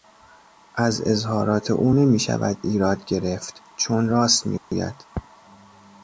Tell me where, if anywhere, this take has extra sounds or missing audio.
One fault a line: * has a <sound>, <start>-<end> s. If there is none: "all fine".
* has a dropout, 4.6-4.7 s